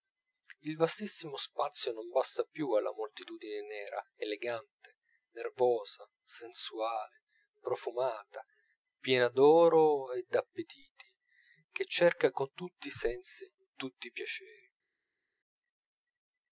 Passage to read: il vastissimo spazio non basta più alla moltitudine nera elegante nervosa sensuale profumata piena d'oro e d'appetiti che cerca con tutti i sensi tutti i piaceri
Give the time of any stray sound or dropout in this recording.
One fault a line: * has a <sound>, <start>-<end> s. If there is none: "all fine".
all fine